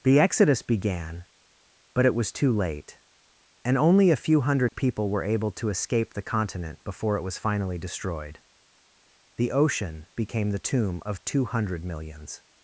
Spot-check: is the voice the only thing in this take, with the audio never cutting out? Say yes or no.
no